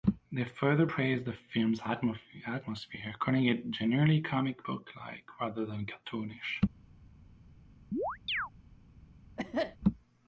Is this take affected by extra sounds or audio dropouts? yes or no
yes